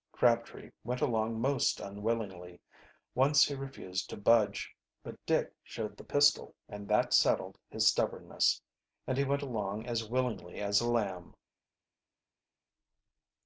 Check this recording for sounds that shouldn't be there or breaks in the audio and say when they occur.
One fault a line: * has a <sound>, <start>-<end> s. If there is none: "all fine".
all fine